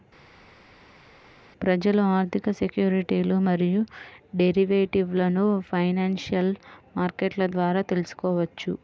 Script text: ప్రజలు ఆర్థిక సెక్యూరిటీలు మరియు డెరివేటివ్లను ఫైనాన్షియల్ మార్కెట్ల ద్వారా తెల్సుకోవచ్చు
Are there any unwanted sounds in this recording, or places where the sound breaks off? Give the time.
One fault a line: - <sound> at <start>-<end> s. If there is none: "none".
none